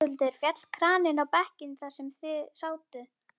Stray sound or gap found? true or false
false